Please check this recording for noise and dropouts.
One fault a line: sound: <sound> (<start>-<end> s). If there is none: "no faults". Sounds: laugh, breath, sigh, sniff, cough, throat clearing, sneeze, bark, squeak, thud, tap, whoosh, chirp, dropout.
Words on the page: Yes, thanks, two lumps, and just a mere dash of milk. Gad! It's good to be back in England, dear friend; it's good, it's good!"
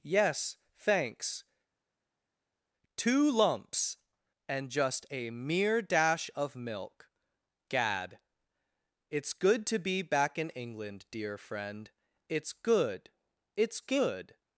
no faults